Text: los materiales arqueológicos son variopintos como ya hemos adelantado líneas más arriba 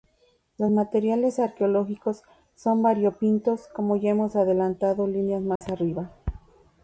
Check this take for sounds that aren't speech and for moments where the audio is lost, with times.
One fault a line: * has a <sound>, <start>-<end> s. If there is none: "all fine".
* has a dropout, 5.6-5.6 s